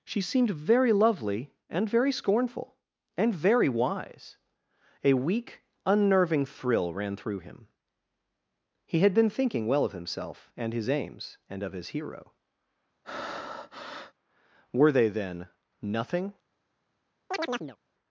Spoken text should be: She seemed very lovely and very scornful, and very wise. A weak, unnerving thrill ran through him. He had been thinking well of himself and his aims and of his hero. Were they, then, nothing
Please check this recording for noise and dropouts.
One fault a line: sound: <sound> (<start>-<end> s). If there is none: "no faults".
sound: breath (13.0-14.1 s)
sound: chirp (17.3-17.8 s)